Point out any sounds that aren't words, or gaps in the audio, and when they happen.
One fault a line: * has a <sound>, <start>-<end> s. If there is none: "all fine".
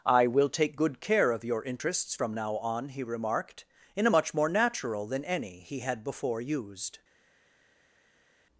all fine